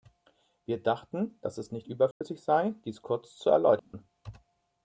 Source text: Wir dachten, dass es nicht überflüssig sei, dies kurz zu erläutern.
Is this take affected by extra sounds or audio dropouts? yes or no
yes